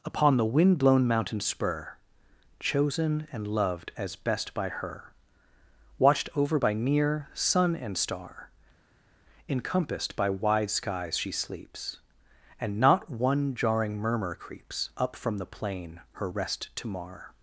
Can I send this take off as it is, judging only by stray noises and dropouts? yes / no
yes